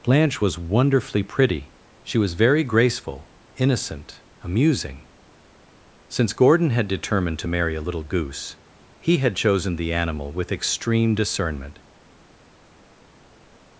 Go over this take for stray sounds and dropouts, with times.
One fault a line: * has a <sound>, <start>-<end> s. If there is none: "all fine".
all fine